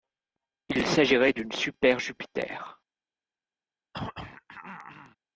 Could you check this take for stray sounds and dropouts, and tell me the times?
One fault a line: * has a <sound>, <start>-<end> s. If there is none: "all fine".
* has a throat clearing, 3.9-5.2 s